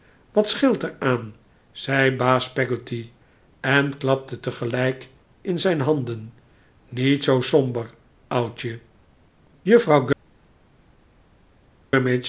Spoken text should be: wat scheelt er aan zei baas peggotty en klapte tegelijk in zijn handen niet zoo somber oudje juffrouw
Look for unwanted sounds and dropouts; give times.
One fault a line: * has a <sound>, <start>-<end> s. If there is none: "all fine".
all fine